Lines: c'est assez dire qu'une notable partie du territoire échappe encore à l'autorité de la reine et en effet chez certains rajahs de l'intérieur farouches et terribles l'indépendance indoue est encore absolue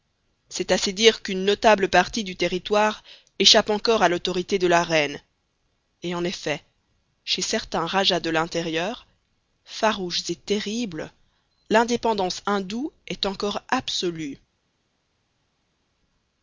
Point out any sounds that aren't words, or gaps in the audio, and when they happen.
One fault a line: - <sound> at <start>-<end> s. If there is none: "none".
none